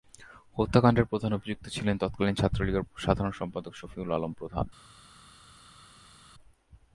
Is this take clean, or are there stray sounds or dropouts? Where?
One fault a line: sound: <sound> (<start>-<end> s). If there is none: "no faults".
no faults